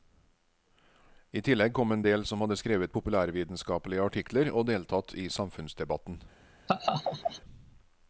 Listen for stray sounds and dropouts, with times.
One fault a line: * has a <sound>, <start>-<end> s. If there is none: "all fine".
* has a laugh, 6.7-7.4 s